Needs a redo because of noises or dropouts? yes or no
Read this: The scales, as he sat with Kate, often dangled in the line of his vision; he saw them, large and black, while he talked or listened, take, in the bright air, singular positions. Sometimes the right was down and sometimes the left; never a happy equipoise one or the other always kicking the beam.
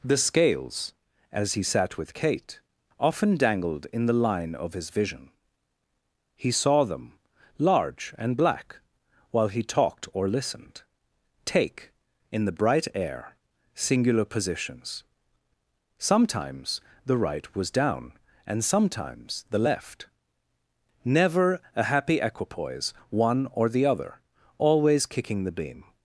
no